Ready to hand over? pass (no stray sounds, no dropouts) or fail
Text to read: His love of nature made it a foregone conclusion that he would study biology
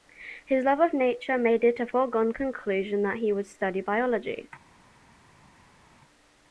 pass